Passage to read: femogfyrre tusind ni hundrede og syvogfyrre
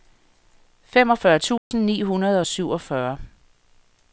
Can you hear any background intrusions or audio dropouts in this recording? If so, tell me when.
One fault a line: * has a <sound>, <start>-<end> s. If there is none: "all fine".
* has a dropout, 1.6-1.7 s